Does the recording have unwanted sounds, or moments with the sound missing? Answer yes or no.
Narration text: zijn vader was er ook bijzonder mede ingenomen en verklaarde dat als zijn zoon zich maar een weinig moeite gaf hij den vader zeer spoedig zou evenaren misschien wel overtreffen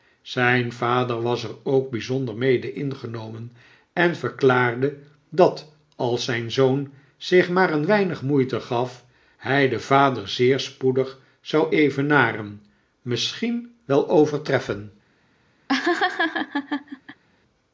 yes